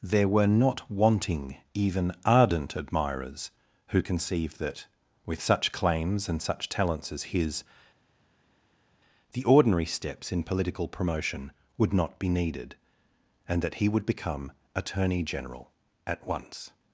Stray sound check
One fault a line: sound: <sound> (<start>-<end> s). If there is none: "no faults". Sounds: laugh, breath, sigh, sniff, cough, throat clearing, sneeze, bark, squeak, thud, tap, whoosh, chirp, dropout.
no faults